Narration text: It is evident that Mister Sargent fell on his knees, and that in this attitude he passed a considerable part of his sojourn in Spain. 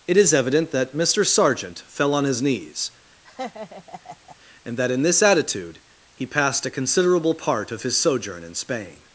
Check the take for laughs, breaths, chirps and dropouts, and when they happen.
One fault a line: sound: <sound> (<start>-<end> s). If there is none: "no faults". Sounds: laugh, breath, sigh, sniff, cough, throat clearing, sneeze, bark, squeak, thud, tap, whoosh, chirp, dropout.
sound: laugh (3.2-4.4 s)